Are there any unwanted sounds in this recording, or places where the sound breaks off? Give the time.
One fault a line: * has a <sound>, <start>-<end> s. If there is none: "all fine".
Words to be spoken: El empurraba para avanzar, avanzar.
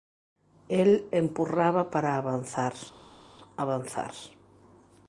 all fine